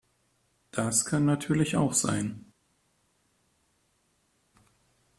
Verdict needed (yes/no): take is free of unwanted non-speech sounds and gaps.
yes